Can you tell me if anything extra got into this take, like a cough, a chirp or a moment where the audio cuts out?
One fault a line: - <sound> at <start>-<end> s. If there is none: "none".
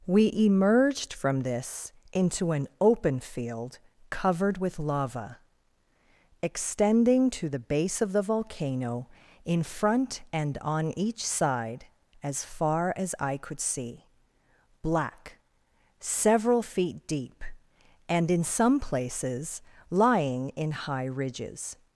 none